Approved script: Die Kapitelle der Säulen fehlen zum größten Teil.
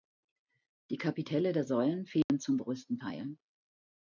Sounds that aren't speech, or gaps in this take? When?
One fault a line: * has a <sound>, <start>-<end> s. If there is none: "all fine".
* has a dropout, 2.2-2.3 s